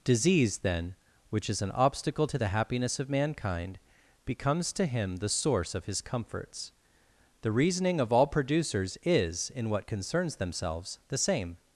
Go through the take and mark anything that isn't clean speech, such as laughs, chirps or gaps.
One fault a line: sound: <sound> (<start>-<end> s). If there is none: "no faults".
no faults